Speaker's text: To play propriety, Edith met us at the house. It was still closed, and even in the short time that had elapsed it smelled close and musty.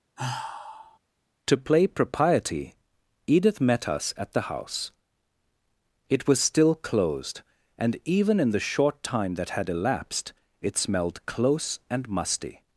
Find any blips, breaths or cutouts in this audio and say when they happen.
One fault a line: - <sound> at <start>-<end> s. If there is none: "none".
- sigh at 0.2-1.0 s